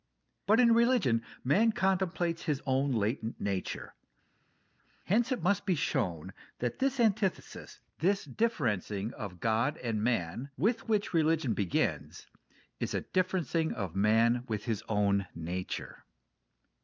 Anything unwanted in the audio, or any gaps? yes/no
no